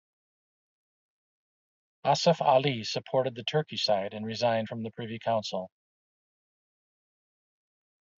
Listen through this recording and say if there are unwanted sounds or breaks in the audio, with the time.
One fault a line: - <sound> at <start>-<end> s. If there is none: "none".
none